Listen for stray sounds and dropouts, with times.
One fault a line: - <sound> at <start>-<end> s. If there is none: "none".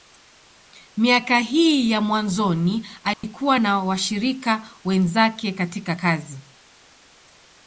- dropout at 3.1-3.2 s